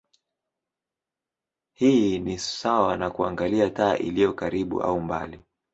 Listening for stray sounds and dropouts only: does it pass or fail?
pass